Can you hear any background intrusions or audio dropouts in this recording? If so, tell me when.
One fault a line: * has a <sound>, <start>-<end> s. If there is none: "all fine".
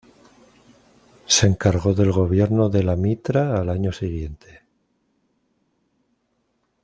all fine